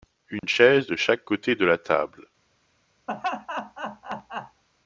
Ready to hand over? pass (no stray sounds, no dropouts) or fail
fail